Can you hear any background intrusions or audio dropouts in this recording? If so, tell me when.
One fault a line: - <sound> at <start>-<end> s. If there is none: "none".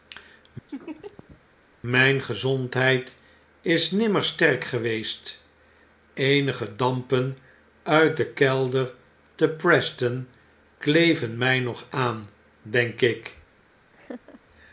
- laugh at 0.7-1.4 s
- laugh at 13.9-14.4 s